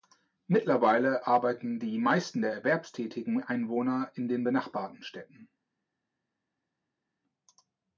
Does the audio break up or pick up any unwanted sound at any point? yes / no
no